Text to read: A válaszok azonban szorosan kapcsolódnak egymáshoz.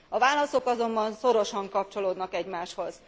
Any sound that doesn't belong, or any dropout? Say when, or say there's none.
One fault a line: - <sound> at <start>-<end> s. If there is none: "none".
none